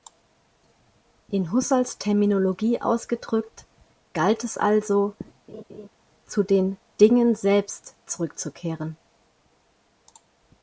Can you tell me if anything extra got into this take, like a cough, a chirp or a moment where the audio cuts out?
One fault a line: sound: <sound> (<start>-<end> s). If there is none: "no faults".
sound: laugh (5.5-5.9 s)